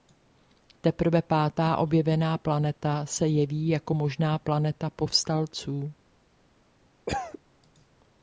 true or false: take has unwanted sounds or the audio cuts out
true